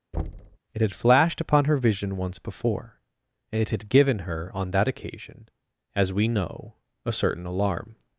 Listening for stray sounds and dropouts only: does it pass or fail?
fail